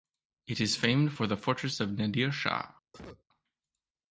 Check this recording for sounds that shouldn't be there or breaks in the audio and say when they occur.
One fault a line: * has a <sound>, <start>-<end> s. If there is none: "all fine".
* has a cough, 2.9-3.2 s